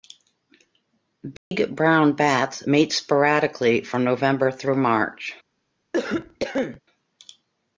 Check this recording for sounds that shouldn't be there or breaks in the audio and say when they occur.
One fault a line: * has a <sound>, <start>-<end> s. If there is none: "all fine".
* has a dropout, 1.4-1.5 s
* has a cough, 5.9-6.8 s